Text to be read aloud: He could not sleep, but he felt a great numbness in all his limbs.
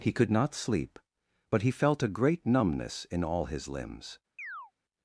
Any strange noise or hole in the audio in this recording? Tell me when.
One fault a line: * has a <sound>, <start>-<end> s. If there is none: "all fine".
* has a chirp, 4.4-4.7 s